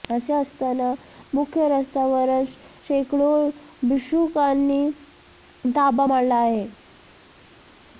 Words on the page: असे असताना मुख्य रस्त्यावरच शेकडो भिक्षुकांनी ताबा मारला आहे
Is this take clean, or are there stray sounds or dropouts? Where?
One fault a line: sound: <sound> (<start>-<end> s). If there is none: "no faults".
no faults